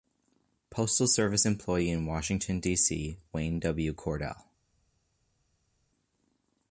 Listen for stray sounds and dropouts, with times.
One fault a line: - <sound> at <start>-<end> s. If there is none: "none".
none